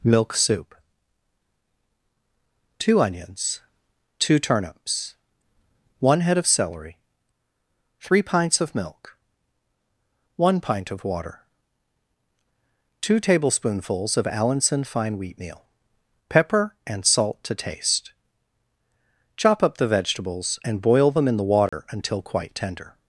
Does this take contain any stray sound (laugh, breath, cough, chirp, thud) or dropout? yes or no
yes